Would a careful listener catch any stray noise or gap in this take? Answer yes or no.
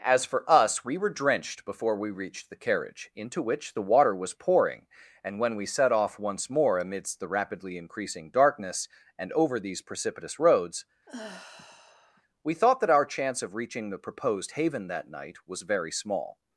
yes